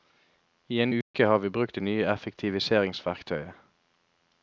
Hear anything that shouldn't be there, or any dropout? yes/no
yes